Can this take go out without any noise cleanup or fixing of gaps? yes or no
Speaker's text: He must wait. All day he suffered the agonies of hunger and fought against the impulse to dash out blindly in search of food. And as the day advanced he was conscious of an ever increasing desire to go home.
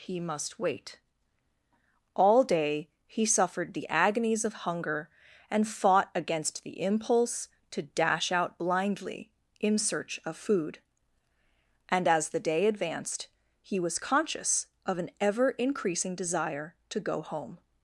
yes